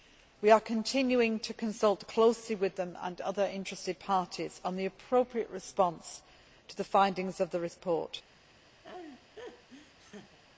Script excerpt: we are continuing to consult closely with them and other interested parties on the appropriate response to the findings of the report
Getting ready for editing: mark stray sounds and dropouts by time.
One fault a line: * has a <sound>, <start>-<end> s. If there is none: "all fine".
* has a laugh, 8.8-10.4 s